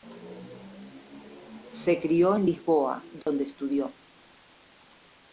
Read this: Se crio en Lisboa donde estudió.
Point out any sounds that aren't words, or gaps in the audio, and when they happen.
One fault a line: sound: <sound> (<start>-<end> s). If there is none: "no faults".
sound: dropout (3.2-3.3 s)